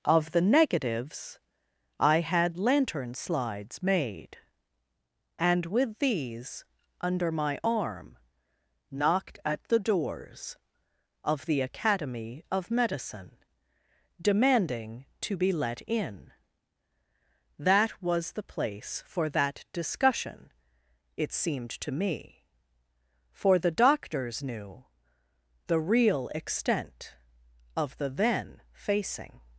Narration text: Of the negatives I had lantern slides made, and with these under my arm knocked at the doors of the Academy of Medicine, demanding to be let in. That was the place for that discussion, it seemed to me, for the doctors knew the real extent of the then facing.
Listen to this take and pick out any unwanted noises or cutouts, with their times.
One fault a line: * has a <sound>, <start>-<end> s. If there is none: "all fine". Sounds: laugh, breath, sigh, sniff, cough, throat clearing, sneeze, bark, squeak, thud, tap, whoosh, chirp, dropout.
all fine